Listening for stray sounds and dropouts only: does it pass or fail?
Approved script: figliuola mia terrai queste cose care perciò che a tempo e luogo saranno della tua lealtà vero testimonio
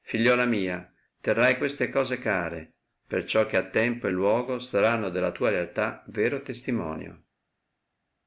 pass